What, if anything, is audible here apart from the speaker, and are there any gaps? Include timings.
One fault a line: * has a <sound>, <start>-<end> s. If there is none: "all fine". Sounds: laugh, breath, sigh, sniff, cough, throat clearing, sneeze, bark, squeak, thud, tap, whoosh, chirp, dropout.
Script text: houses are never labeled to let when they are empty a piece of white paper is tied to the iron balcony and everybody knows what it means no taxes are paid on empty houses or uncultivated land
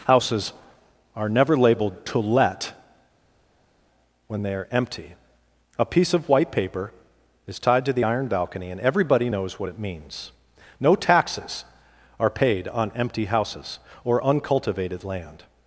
all fine